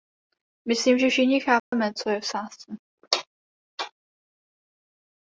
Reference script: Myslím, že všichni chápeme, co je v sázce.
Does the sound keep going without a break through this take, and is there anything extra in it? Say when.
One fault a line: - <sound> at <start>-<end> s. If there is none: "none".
- dropout at 1.6-1.7 s